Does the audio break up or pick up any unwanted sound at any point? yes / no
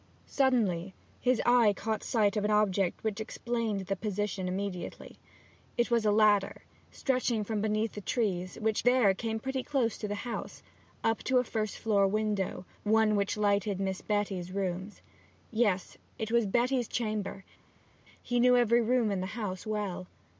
no